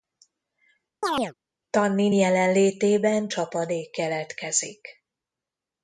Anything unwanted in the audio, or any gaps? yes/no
yes